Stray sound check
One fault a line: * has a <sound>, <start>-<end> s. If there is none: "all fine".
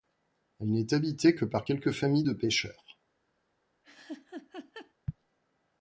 * has a laugh, 3.8-4.9 s